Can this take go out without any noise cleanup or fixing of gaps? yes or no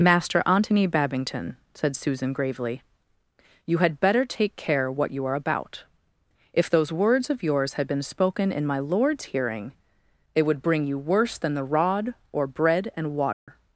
no